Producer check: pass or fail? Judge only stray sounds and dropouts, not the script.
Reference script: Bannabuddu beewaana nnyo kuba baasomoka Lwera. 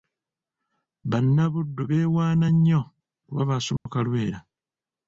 fail